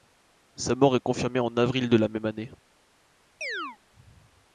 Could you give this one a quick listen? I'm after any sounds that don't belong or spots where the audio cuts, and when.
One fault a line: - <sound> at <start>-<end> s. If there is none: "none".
- chirp at 3.4-3.8 s